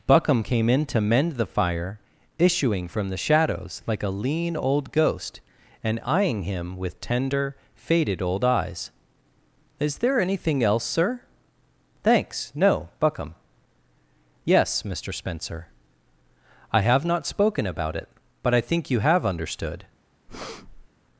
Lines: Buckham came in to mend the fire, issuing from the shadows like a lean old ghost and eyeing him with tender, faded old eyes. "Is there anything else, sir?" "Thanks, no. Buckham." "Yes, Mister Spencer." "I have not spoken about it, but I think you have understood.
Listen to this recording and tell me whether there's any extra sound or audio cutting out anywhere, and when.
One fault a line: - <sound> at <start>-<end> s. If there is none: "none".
- breath at 20.3-20.9 s